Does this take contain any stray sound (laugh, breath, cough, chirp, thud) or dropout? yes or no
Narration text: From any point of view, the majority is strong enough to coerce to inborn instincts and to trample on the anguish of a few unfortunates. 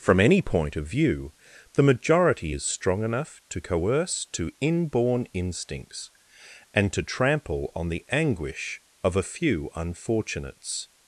no